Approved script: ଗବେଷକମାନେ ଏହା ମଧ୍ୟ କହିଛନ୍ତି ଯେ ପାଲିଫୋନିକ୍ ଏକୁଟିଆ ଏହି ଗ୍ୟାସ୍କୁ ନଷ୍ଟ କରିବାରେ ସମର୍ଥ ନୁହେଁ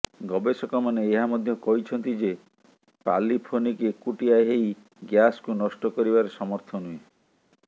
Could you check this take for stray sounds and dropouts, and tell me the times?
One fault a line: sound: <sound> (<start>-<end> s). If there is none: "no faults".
no faults